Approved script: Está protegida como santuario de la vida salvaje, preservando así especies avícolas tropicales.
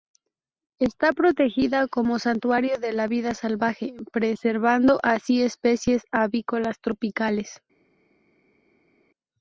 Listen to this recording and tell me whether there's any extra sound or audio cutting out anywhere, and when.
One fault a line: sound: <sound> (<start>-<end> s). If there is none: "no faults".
no faults